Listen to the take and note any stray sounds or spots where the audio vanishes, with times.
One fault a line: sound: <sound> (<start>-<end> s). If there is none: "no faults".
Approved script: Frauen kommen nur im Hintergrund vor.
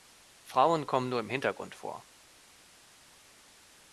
no faults